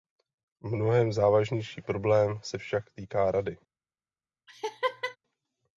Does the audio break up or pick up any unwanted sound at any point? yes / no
yes